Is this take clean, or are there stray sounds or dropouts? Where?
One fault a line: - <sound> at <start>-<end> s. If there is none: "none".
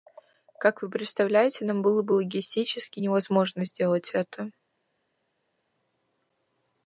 none